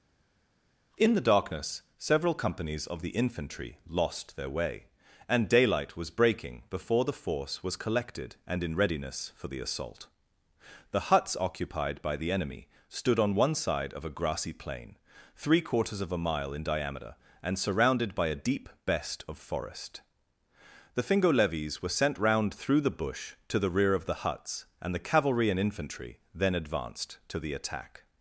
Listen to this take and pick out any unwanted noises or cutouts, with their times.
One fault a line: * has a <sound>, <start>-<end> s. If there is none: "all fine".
all fine